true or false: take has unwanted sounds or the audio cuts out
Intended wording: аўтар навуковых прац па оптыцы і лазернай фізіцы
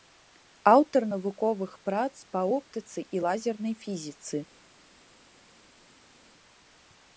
false